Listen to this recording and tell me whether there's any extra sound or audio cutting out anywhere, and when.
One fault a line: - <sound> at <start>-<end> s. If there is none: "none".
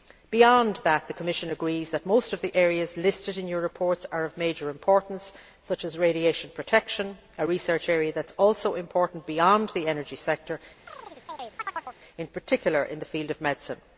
- chirp at 10.9-12.0 s